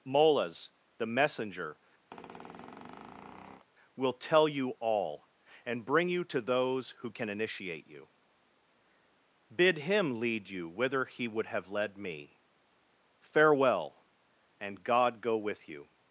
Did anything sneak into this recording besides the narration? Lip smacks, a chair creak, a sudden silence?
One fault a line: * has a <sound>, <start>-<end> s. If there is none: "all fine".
* has a squeak, 2.1-3.7 s